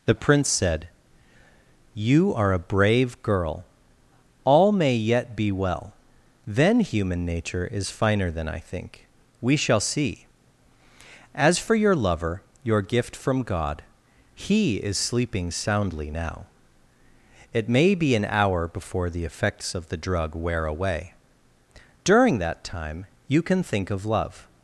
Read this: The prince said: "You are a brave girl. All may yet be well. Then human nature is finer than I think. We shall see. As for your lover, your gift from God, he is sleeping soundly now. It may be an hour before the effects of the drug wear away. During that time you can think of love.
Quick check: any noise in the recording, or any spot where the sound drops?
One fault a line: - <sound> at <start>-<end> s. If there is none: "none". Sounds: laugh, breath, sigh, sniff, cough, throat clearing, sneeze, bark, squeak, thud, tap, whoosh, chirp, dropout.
none